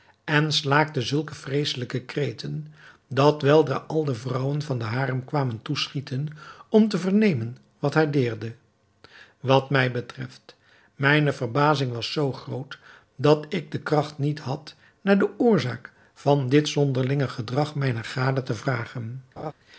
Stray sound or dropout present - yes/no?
yes